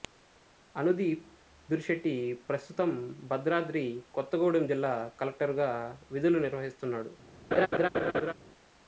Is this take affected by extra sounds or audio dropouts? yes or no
yes